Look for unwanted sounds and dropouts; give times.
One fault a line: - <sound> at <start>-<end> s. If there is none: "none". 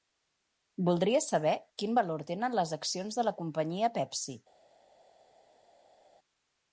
none